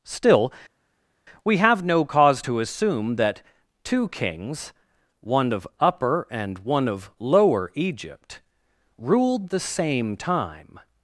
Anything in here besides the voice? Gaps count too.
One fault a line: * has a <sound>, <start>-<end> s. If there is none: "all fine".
all fine